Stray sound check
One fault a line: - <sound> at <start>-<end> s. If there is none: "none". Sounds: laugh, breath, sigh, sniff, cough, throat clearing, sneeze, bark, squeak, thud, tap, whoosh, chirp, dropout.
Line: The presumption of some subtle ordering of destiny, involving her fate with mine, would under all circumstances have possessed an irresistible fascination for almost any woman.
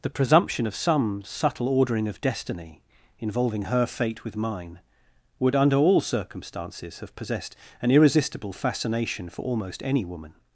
none